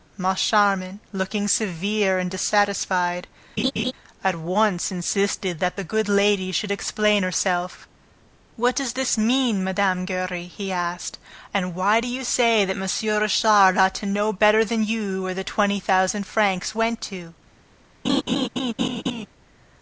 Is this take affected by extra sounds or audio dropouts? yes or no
yes